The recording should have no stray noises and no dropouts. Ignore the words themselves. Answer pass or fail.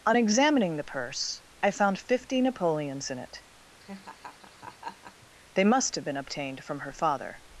fail